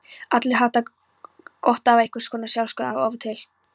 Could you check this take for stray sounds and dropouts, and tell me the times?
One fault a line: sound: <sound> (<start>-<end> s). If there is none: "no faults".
no faults